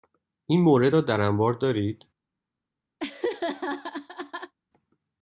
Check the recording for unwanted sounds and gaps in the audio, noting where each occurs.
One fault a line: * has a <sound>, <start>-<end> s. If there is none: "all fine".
* has a laugh, 3.0-4.5 s